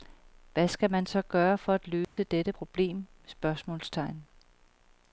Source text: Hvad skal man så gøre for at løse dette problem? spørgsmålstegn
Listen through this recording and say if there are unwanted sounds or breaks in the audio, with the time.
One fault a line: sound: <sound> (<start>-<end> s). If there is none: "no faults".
sound: dropout (2.0-2.2 s)